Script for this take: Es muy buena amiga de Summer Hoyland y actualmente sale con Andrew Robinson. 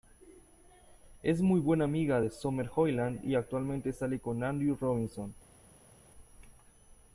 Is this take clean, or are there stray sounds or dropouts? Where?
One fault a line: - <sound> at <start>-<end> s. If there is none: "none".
none